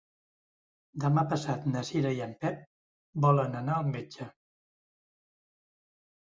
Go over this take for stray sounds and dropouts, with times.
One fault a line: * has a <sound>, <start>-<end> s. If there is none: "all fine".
all fine